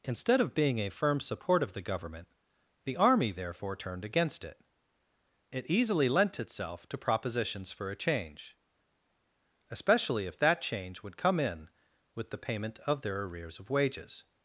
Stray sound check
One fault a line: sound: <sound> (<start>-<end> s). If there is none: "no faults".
no faults